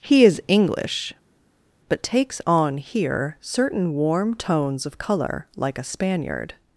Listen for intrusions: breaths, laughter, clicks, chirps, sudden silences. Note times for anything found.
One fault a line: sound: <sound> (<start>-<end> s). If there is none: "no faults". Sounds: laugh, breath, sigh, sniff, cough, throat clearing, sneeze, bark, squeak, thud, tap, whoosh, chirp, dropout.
no faults